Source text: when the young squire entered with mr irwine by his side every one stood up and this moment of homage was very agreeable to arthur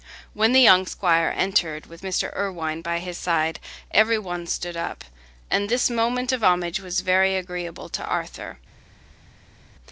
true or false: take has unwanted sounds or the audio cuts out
false